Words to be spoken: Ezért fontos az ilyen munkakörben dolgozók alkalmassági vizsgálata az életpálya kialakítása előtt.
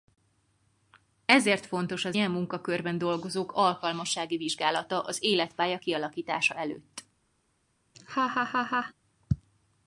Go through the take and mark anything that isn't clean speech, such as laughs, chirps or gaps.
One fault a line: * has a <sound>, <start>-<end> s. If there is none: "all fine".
* has a laugh, 7.9-8.9 s